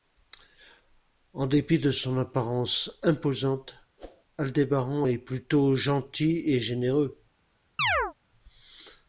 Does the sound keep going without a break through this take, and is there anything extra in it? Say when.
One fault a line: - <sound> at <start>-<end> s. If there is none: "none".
- whoosh at 4.0-4.2 s
- chirp at 7.8-8.1 s